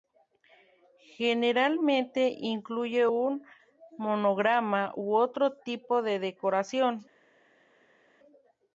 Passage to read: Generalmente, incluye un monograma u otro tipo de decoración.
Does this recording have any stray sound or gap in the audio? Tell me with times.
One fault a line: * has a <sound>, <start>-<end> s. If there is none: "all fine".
all fine